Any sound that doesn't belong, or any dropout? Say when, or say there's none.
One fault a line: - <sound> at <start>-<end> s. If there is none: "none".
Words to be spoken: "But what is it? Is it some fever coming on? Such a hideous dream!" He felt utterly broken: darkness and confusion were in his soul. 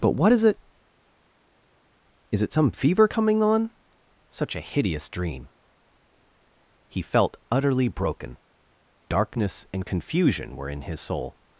none